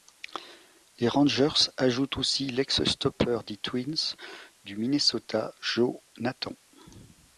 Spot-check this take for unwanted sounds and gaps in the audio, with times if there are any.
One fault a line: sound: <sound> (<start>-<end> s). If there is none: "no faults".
no faults